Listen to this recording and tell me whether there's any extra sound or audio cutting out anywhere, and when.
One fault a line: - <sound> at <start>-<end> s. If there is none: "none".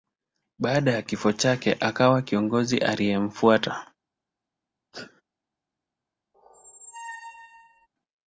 - sneeze at 4.9-5.2 s
- squeak at 6.3-7.9 s